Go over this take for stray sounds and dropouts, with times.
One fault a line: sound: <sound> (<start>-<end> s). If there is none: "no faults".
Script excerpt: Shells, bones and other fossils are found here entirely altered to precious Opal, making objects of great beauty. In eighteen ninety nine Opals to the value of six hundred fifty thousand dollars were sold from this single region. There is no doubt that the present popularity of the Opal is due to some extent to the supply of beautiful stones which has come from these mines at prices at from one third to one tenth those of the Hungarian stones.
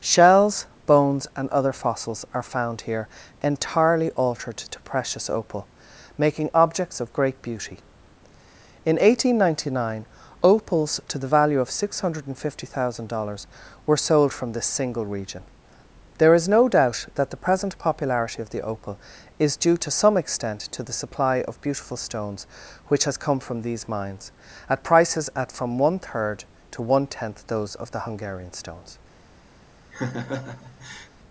sound: laugh (29.9-31.1 s)